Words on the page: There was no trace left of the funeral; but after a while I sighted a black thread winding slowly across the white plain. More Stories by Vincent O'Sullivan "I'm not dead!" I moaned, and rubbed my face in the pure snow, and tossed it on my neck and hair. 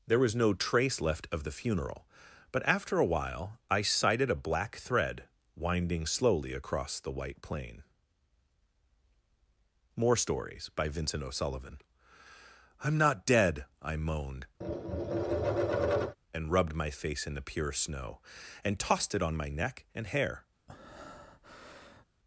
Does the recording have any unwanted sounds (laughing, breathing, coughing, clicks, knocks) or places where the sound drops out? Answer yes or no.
yes